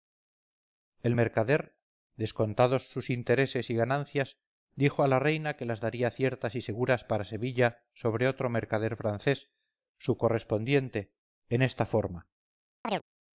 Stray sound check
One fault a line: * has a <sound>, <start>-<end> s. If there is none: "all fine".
* has a chirp, 12.8-13.0 s